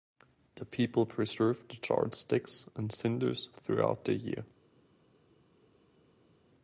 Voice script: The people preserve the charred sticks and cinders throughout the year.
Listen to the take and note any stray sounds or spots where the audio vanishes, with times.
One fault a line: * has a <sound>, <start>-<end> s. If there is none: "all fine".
all fine